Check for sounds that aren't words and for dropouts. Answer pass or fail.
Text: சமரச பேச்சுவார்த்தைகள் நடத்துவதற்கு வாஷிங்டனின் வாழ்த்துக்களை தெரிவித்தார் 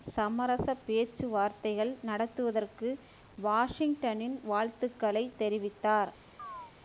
fail